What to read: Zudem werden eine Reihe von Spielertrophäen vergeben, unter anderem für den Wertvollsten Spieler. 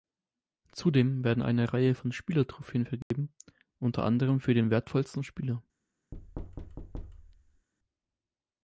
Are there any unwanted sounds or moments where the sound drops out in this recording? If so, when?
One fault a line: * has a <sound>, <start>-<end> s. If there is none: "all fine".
* has a dropout, 3.0-3.1 s
* has a thud, 6.1-7.7 s